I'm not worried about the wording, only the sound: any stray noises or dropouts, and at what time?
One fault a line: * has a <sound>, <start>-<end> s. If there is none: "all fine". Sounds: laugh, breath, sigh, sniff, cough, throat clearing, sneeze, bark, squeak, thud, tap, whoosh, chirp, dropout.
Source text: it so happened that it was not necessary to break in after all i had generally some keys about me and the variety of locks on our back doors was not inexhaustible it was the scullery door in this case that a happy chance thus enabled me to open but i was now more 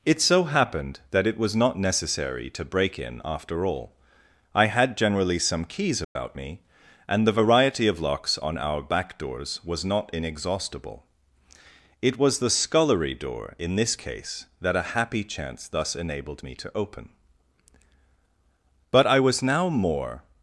* has a dropout, 6.0-6.2 s